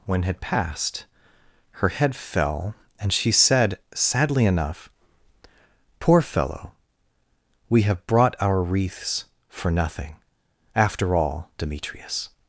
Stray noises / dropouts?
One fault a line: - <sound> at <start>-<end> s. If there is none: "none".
none